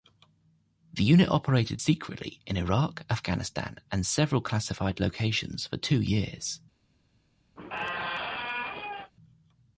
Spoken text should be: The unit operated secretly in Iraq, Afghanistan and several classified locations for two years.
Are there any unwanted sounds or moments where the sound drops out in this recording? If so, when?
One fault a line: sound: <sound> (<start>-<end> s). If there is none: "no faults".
sound: squeak (7.6-9.1 s)